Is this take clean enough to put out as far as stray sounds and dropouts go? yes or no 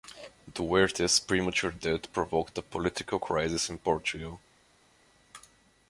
yes